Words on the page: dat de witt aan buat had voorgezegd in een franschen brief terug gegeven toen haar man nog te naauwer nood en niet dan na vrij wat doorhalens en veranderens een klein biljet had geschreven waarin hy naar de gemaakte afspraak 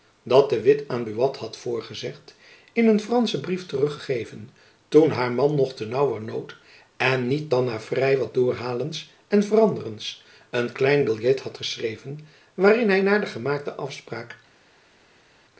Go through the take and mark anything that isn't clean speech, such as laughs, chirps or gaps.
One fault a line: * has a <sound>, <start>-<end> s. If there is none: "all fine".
all fine